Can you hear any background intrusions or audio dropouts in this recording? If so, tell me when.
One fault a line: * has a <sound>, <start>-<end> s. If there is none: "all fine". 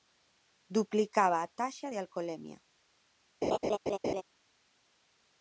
* has a laugh, 3.4-4.2 s